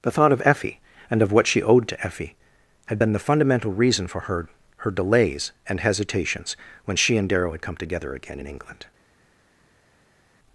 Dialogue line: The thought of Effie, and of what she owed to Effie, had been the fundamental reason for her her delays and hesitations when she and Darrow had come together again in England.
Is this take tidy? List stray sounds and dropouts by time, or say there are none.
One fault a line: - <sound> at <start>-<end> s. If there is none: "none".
none